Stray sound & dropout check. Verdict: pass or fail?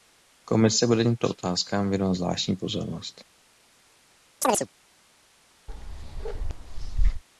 fail